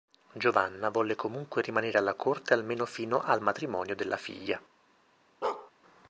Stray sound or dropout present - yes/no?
yes